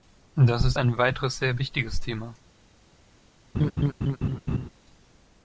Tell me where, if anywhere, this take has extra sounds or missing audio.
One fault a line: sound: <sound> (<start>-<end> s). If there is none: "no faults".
sound: laugh (3.5-4.7 s)